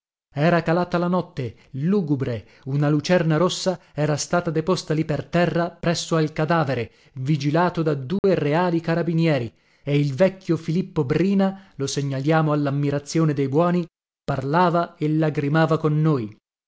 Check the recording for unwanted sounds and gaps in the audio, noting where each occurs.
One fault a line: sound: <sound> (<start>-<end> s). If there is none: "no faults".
sound: dropout (8.2-8.2 s)